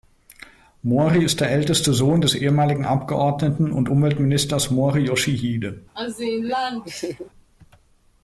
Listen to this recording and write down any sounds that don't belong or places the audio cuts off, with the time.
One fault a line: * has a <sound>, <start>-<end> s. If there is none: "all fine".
* has a laugh, 6.0-7.3 s